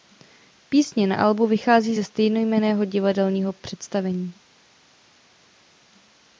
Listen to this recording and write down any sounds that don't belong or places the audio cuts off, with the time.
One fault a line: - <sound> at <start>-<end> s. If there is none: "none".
none